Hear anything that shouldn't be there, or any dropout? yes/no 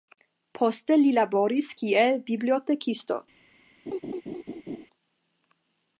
yes